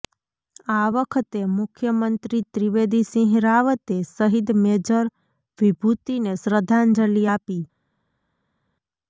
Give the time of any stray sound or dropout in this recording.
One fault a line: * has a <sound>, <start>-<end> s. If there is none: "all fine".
all fine